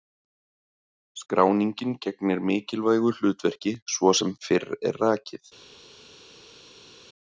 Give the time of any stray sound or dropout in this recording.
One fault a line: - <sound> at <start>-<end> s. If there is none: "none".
none